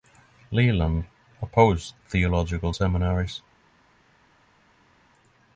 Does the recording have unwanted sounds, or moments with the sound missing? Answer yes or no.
no